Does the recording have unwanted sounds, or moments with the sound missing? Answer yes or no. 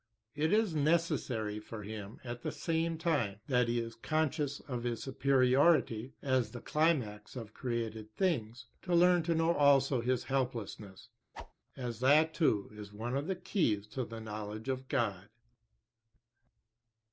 yes